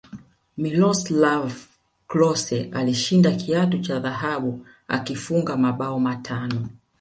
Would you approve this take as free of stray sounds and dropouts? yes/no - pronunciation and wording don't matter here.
yes